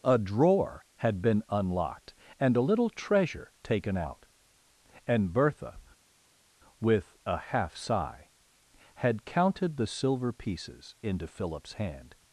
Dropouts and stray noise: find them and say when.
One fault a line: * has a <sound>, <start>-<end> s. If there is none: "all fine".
all fine